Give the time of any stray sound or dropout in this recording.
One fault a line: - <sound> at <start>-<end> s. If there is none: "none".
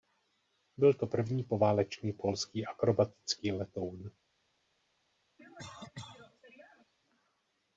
- cough at 5.4-6.9 s